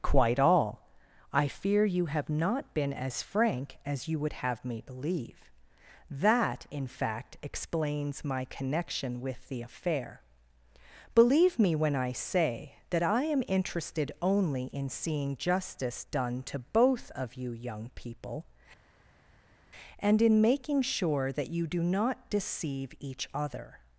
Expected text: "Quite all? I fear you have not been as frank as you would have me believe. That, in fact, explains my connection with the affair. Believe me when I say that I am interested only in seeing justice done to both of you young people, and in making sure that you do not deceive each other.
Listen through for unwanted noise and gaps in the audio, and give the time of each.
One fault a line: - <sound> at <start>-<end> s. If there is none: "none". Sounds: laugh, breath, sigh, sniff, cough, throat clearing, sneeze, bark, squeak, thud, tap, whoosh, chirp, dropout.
none